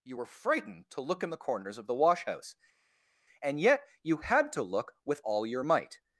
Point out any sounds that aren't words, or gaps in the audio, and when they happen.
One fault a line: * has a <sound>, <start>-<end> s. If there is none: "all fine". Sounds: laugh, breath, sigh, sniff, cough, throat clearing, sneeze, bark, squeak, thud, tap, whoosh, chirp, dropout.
all fine